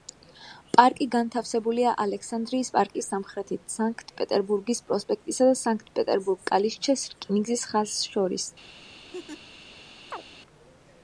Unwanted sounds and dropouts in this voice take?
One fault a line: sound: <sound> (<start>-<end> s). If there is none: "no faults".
sound: laugh (9.1-9.4 s)
sound: chirp (10.1-10.2 s)